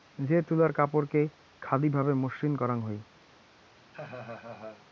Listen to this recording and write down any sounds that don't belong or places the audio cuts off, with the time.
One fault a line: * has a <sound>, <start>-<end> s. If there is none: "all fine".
* has a laugh, 3.9-4.9 s